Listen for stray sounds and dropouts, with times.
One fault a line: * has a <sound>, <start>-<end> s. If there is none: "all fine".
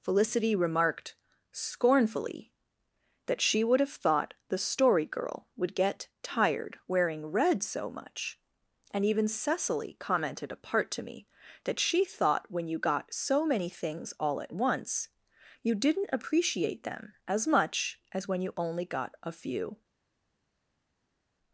all fine